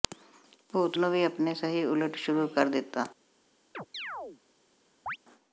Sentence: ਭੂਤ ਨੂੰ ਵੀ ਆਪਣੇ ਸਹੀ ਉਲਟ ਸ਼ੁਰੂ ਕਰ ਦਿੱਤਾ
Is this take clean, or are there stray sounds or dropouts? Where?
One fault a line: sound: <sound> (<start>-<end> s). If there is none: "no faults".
sound: chirp (3.7-4.4 s)
sound: chirp (5.1-5.2 s)